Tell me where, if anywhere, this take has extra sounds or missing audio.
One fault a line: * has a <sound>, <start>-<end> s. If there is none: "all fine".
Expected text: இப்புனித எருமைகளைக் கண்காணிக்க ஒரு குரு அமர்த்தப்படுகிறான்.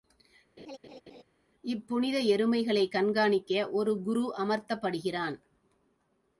* has a laugh, 0.6-1.2 s